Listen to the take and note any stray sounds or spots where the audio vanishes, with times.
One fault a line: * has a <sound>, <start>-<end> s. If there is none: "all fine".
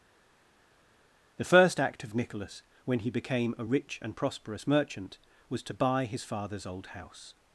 all fine